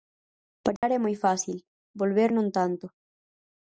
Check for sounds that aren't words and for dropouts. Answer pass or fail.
fail